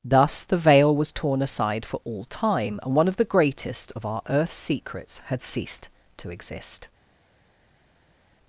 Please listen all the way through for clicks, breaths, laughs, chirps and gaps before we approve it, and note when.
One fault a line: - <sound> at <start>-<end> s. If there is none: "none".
none